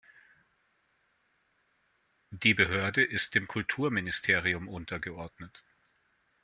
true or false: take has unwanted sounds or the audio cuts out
false